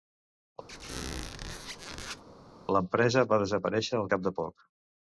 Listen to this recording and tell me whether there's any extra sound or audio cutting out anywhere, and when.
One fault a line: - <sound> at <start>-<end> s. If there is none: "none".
- squeak at 0.7-2.2 s